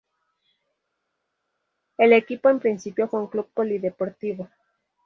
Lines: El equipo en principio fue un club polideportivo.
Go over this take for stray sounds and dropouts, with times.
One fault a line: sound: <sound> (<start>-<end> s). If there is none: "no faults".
no faults